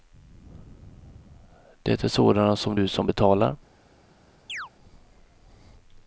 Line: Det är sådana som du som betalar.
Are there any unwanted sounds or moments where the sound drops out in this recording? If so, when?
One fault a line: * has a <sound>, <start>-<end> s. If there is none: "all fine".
* has a chirp, 4.5-4.7 s